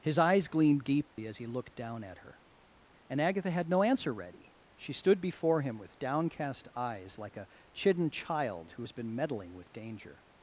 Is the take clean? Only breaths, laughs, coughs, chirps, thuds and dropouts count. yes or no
no